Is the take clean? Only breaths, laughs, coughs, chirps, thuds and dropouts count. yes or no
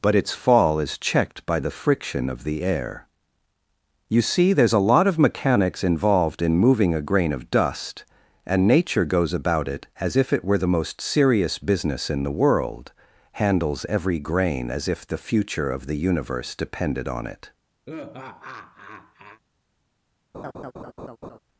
no